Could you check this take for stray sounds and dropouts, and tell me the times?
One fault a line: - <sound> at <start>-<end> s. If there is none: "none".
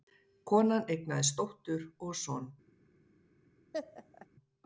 - laugh at 3.7-4.3 s